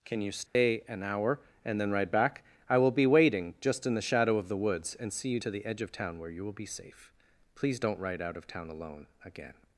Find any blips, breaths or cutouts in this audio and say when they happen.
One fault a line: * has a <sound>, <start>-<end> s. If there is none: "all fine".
* has a dropout, 0.5-0.5 s